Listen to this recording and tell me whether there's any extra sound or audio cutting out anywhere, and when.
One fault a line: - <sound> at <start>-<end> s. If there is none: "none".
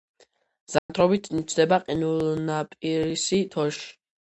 - dropout at 0.8-0.9 s